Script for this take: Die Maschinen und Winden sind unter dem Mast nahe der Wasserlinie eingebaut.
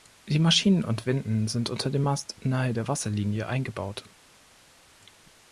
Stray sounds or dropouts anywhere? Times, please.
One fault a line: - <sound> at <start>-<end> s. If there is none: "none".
none